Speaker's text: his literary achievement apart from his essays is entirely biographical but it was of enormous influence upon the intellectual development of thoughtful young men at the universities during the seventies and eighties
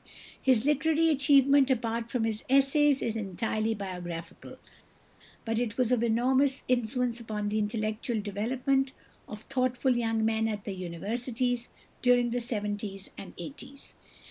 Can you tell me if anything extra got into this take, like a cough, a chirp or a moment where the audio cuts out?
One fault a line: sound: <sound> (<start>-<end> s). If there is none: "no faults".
no faults